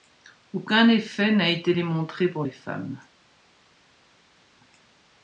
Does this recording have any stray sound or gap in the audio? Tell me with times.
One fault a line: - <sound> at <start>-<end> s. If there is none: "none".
none